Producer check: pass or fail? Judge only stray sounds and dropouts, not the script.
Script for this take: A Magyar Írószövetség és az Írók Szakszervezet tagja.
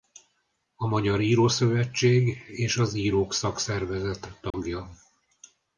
fail